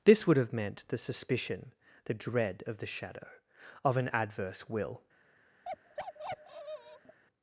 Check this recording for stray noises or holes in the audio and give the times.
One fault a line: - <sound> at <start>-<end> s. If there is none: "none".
- bark at 5.6-7.2 s